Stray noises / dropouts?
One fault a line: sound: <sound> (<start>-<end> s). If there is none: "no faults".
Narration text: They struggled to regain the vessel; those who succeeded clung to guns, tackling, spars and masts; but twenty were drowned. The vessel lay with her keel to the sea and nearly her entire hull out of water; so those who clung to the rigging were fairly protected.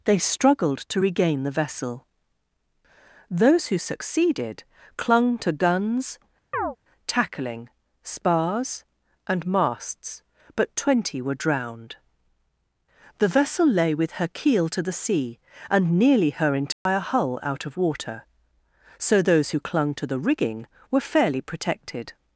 sound: chirp (6.5-6.8 s)
sound: dropout (16.7-16.9 s)